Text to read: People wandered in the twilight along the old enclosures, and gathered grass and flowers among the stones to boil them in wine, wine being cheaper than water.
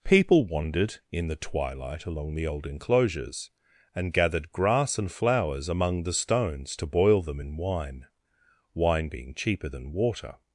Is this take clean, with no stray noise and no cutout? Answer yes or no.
yes